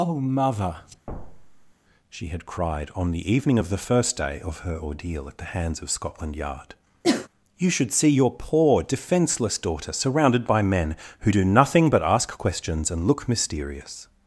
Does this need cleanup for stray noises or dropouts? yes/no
yes